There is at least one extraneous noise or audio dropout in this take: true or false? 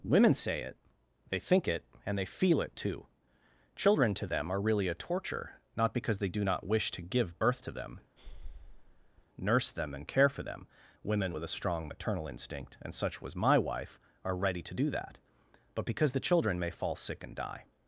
true